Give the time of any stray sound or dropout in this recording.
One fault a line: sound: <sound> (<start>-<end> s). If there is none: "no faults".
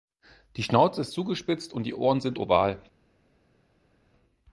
no faults